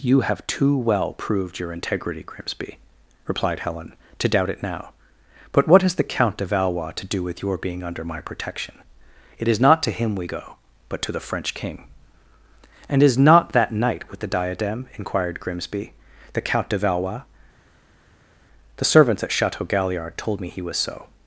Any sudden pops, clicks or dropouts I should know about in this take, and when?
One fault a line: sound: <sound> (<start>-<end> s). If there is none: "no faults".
no faults